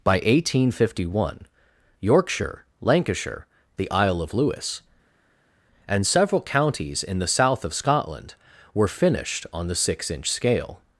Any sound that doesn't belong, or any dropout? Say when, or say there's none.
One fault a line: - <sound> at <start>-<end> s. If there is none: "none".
none